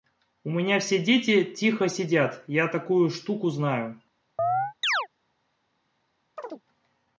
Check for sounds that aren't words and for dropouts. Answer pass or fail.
fail